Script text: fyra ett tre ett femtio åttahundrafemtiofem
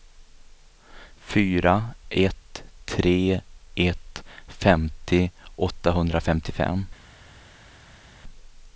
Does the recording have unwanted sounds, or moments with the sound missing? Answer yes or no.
no